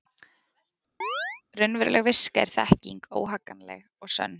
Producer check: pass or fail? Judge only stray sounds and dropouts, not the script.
fail